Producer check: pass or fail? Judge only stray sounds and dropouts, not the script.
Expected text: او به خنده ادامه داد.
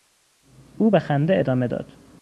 pass